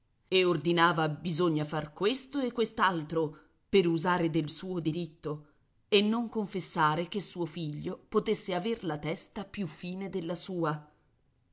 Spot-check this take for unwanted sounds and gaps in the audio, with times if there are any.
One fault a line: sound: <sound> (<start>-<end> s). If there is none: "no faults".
no faults